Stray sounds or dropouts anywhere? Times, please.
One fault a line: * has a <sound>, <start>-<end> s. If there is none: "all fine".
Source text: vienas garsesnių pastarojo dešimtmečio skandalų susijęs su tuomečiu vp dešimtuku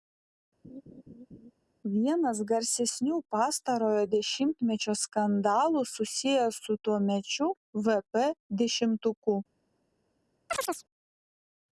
* has a laugh, 0.6-1.5 s
* has a chirp, 10.5-10.8 s